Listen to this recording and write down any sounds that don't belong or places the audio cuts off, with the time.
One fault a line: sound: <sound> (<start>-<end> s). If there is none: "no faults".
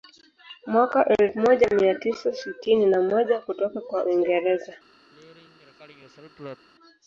sound: throat clearing (5.1-6.7 s)